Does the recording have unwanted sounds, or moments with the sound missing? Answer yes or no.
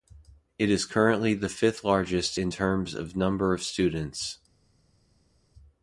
no